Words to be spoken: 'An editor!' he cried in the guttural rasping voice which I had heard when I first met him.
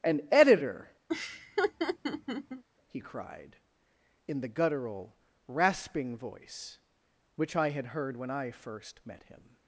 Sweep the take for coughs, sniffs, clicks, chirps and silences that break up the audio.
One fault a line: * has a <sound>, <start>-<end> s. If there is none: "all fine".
* has a laugh, 1.1-2.6 s